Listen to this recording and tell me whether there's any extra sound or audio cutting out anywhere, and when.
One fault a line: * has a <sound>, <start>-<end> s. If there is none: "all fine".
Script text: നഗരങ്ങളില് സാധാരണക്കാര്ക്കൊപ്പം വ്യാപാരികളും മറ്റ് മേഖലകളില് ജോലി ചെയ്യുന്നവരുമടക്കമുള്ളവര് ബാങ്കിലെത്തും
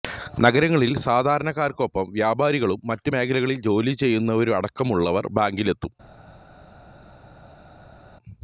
all fine